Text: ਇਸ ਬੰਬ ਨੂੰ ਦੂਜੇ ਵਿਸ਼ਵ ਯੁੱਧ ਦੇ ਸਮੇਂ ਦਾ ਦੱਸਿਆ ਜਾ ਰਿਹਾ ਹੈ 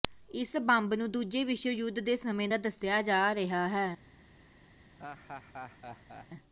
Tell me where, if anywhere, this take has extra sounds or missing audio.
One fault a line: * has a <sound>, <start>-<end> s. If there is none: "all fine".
* has a laugh, 5.0-6.3 s